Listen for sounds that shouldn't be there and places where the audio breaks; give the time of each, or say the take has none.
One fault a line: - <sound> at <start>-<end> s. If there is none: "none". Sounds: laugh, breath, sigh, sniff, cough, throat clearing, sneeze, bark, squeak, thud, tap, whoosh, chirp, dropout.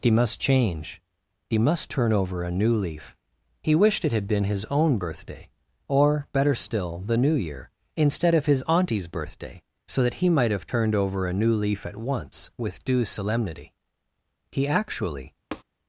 - tap at 15.5-15.6 s